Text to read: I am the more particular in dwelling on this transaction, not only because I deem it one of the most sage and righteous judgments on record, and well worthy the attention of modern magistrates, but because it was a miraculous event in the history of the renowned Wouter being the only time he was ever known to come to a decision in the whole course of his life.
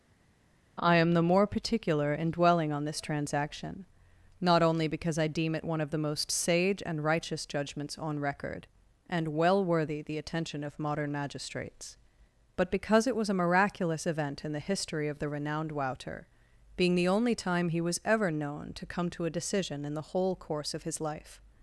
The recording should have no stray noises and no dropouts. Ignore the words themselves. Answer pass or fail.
pass